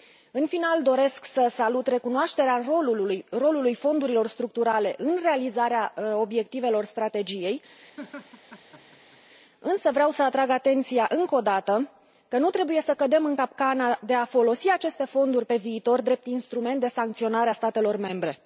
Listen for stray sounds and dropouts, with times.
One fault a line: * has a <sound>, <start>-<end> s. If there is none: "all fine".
* has a laugh, 8.0-9.2 s